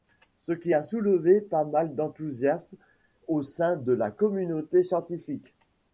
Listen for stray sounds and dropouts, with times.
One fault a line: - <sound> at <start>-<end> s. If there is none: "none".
none